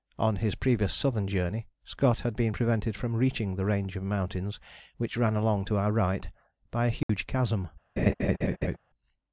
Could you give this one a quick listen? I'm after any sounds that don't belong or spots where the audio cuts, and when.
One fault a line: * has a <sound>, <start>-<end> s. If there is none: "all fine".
* has a dropout, 7.0-7.1 s
* has a laugh, 8.0-8.8 s